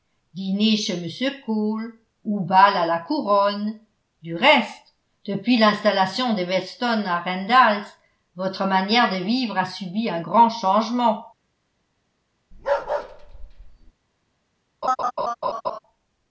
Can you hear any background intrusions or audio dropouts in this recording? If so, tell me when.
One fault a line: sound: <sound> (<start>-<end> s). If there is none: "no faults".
sound: bark (12.5-13.9 s)
sound: laugh (14.8-15.8 s)